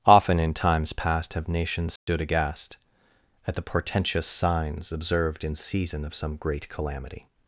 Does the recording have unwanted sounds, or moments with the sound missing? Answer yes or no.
yes